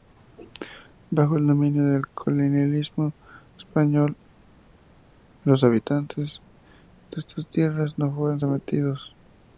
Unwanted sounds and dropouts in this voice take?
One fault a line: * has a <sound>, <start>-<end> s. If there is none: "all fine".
all fine